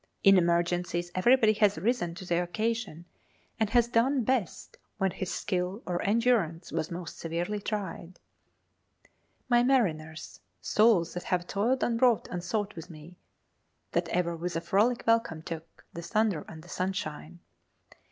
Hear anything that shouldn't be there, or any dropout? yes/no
no